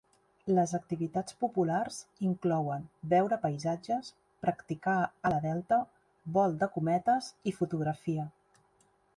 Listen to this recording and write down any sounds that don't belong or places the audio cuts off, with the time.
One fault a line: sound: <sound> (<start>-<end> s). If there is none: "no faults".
no faults